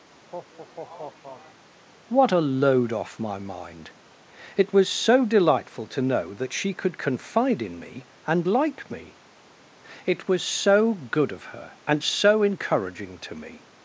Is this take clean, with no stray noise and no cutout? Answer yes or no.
no